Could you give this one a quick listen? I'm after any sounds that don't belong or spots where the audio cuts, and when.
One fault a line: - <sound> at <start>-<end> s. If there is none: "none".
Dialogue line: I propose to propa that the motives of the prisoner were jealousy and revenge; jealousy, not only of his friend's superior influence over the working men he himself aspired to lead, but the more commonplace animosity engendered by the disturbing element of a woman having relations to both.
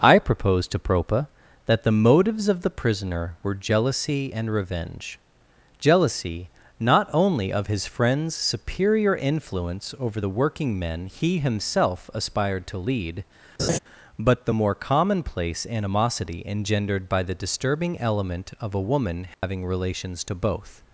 - laugh at 13.6-13.8 s
- dropout at 19.3-19.4 s